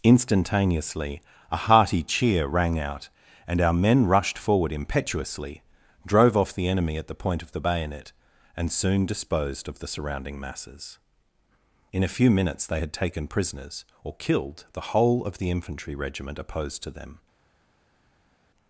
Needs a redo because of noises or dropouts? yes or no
no